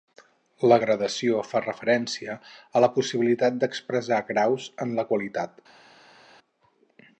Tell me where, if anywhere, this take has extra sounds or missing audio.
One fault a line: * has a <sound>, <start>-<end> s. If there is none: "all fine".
all fine